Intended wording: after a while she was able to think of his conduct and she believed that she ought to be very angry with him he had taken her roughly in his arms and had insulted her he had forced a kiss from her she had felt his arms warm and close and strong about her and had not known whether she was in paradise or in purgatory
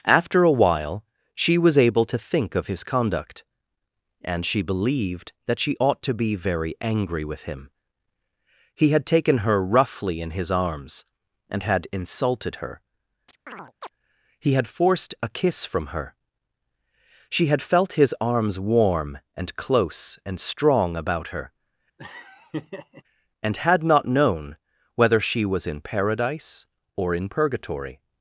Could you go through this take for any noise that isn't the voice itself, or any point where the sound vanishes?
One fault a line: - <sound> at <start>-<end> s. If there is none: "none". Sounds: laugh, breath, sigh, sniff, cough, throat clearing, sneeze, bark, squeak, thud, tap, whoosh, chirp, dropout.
- chirp at 13.3-13.9 s
- laugh at 22.0-23.0 s